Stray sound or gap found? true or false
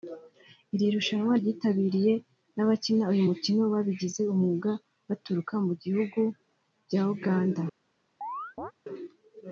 true